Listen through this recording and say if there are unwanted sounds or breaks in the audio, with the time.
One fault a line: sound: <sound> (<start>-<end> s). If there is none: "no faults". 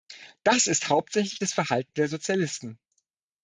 no faults